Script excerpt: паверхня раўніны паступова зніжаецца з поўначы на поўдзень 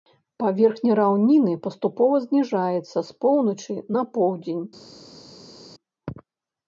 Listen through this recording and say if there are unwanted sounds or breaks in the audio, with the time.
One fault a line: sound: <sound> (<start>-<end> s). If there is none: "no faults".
no faults